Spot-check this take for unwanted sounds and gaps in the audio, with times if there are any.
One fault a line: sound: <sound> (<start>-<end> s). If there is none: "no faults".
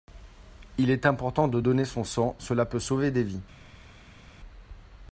no faults